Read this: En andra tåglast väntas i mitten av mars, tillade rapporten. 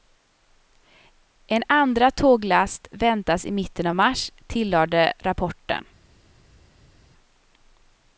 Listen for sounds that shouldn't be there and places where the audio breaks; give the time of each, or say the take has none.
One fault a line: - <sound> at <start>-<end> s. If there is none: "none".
none